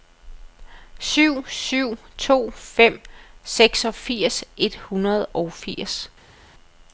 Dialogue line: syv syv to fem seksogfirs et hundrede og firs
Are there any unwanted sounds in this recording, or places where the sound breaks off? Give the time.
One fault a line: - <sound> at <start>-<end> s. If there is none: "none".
none